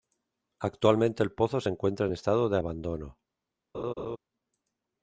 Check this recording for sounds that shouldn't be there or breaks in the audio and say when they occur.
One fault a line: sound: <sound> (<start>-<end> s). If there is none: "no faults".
sound: laugh (3.7-4.2 s)